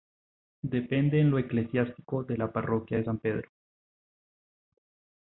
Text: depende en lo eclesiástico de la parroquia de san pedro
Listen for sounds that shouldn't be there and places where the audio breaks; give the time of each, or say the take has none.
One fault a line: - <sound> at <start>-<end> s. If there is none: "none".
none